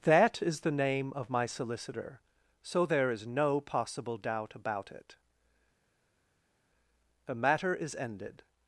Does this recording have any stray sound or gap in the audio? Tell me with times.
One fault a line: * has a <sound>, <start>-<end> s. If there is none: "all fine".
all fine